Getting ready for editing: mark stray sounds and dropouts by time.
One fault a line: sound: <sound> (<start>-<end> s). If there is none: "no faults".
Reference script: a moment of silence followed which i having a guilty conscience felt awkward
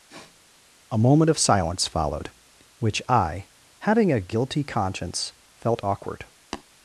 sound: sniff (0.1-0.4 s)
sound: tap (6.5-6.6 s)